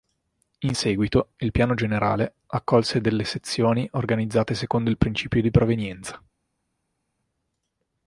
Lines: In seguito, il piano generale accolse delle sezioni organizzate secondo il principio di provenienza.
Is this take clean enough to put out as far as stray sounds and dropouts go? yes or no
yes